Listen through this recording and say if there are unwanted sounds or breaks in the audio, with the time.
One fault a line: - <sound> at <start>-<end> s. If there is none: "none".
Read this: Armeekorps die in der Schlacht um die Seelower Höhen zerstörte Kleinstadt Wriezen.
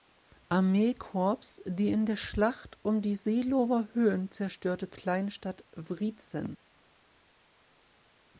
none